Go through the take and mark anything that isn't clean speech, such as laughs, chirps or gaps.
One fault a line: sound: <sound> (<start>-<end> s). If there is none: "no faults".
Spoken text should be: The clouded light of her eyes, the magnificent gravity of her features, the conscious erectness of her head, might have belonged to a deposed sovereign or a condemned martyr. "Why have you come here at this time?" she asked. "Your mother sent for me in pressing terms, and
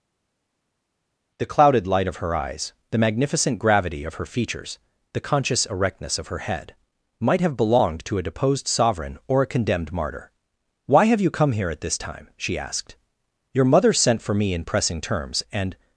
no faults